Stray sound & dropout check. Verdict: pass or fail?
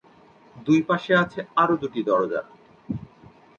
pass